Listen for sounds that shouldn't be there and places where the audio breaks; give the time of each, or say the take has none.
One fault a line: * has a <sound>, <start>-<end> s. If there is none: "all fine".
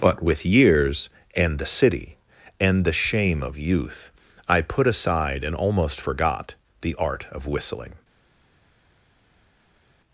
all fine